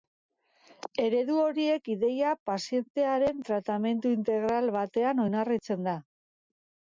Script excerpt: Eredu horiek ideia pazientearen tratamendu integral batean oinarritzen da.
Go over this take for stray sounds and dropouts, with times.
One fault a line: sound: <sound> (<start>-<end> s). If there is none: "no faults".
no faults